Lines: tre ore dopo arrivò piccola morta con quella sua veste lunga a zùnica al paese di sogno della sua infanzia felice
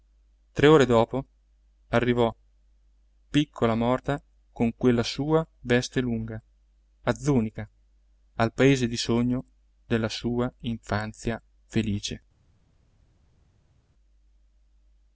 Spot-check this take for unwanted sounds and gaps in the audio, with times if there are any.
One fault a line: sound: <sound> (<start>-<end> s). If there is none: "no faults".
no faults